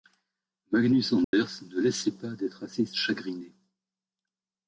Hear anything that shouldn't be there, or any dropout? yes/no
yes